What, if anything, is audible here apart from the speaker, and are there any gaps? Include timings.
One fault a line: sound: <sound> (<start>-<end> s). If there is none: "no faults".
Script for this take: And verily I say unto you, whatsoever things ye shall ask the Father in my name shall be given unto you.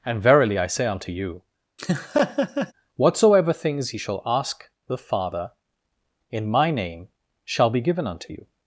sound: laugh (1.8-2.7 s)